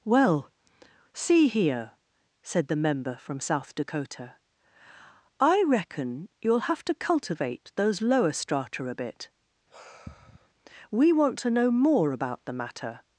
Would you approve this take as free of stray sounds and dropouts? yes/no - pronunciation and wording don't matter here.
no